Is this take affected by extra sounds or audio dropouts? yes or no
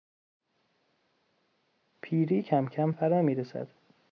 no